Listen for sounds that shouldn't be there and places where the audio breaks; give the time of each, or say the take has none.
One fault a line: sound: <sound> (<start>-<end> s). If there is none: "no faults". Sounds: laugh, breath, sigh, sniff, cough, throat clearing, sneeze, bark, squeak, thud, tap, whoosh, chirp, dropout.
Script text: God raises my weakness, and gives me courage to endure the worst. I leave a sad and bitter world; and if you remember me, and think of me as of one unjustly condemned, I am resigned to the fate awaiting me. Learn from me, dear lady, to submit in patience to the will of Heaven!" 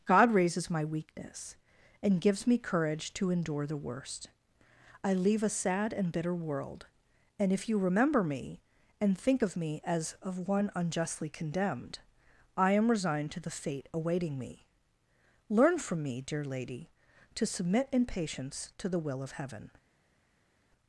no faults